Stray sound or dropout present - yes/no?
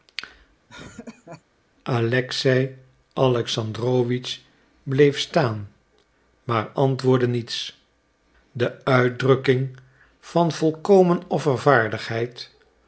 yes